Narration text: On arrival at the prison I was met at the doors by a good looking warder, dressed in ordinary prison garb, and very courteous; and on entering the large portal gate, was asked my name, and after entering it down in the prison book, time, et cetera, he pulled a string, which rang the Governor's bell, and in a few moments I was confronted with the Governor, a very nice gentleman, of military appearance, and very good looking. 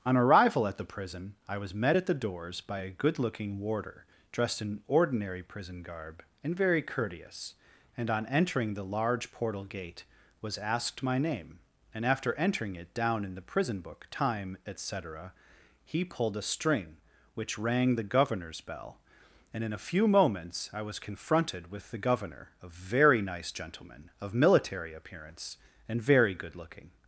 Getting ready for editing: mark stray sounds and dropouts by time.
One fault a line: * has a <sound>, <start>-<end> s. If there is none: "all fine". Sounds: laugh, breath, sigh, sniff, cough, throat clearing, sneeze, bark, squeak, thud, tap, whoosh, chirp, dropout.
all fine